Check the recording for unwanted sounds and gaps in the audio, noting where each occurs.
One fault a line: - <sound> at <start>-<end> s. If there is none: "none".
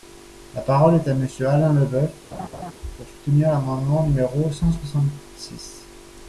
- laugh at 2.3-2.7 s